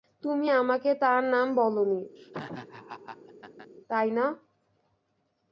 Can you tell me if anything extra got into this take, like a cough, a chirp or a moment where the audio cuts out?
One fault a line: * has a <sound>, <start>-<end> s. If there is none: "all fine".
* has a laugh, 2.2-3.7 s